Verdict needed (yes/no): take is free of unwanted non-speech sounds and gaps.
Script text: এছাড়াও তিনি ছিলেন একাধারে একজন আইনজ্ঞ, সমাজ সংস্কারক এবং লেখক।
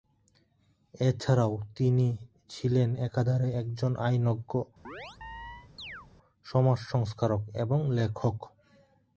no